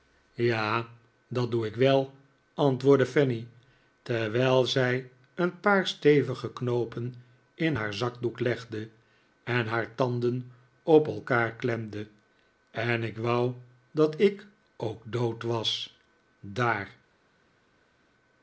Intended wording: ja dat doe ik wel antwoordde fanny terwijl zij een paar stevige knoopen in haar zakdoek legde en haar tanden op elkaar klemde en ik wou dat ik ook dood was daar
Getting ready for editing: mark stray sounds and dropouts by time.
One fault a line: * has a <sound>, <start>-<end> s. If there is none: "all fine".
all fine